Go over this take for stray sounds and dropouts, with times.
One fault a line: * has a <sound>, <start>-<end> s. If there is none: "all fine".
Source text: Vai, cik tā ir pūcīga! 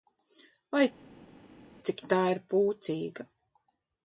all fine